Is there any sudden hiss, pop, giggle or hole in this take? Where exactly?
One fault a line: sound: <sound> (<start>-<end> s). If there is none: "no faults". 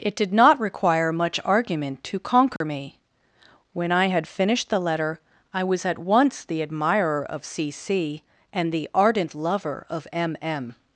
sound: dropout (2.6-2.6 s)